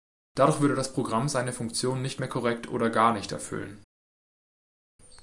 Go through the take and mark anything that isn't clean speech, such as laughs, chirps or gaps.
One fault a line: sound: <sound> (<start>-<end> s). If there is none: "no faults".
no faults